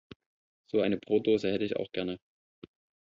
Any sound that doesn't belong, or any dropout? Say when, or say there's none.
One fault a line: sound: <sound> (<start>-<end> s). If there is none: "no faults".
no faults